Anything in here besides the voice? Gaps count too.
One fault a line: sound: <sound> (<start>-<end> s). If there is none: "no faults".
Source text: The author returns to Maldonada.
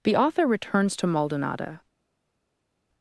no faults